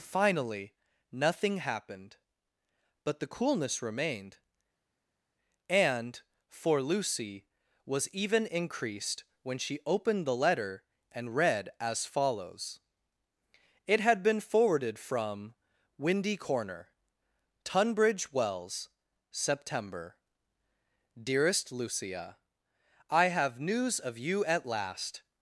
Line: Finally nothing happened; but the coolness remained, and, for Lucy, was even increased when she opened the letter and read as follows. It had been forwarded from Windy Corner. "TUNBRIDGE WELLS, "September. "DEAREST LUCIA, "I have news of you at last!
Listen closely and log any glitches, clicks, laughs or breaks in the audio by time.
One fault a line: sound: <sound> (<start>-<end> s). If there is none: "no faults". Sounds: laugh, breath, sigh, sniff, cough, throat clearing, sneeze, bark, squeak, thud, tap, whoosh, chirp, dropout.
no faults